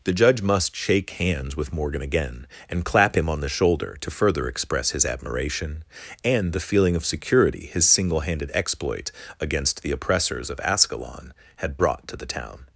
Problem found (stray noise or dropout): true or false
false